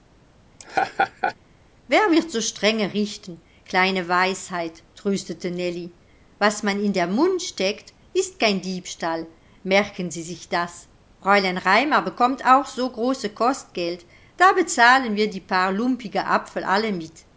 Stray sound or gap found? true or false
true